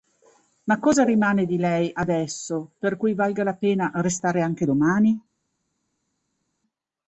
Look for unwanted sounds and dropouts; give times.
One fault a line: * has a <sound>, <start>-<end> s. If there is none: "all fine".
all fine